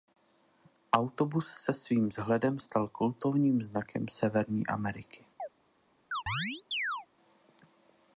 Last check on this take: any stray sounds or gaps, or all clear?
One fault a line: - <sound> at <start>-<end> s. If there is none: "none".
- chirp at 5.4-5.5 s
- chirp at 6.1-7.1 s